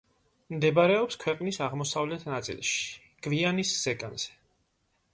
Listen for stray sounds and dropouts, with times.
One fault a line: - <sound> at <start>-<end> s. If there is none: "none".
none